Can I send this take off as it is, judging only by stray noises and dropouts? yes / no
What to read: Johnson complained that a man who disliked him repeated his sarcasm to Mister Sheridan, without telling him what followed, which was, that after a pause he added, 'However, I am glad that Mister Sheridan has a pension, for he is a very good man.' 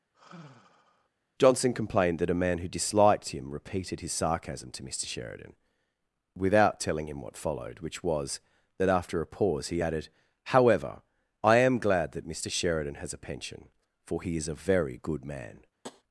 no